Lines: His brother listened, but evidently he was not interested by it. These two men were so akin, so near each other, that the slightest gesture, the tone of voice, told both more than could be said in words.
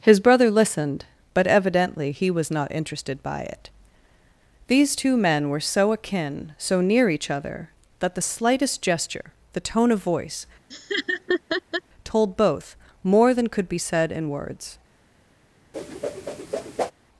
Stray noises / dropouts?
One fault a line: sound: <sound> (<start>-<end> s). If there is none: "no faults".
sound: laugh (10.7-11.8 s)
sound: whoosh (15.7-16.9 s)